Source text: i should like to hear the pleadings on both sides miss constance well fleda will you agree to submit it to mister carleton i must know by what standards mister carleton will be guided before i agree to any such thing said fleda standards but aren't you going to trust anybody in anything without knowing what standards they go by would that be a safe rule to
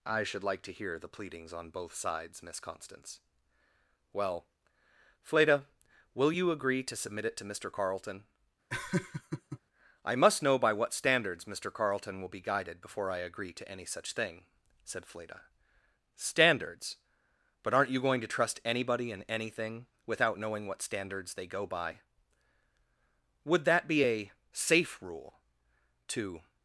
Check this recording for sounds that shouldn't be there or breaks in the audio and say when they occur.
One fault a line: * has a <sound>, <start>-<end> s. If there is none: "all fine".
* has a laugh, 8.7-9.6 s